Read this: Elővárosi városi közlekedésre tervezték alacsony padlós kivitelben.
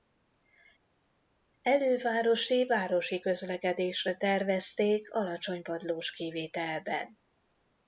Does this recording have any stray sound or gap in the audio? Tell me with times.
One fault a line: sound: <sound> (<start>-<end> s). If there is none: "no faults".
no faults